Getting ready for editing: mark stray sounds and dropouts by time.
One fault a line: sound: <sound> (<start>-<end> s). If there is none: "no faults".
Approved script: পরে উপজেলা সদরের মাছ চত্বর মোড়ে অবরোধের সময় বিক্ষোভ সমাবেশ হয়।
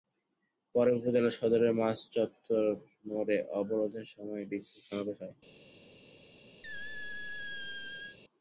sound: squeak (6.6-8.2 s)